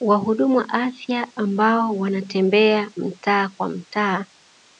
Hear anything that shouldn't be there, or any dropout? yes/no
no